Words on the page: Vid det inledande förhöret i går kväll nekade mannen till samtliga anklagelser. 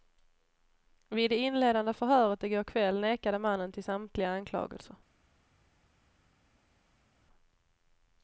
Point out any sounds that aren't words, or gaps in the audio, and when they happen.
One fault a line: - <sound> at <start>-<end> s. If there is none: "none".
none